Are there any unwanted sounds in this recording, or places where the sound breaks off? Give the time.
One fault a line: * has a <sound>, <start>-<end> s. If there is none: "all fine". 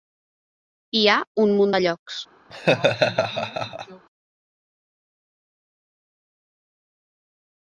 * has a laugh, 2.5-4.1 s